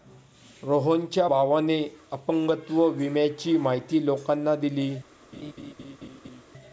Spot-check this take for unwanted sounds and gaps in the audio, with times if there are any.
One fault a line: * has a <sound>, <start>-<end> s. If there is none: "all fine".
* has a laugh, 5.3-6.4 s